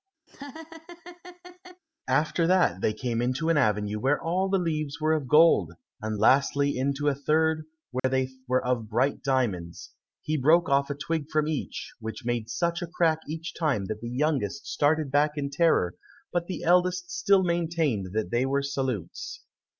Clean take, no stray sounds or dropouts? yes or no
no